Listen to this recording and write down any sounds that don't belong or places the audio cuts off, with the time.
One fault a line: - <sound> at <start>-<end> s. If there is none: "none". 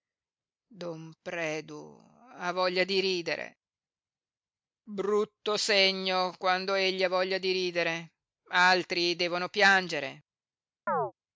- chirp at 10.9-11.1 s